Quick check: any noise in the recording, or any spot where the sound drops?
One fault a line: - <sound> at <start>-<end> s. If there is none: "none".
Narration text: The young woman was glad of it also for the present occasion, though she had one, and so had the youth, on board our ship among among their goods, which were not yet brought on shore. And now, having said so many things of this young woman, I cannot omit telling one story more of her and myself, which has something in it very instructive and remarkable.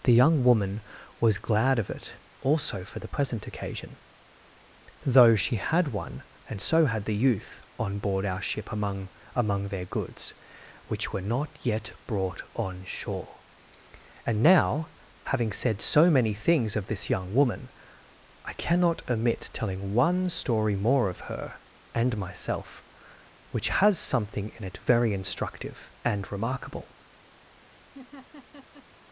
- laugh at 27.9-28.9 s